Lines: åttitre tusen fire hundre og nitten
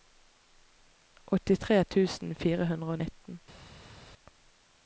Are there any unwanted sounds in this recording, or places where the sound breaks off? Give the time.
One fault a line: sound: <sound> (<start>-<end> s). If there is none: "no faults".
no faults